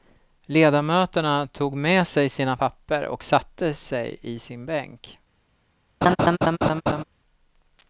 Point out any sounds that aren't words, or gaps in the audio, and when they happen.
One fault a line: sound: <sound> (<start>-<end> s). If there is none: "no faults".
sound: laugh (6.0-7.0 s)